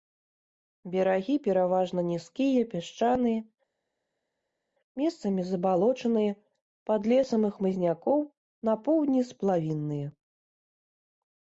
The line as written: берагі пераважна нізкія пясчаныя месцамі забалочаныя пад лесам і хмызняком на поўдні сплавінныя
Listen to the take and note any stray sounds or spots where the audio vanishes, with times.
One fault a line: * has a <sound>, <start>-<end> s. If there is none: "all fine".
all fine